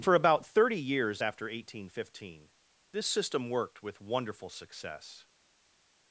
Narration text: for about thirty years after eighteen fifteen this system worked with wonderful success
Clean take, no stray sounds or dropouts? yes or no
yes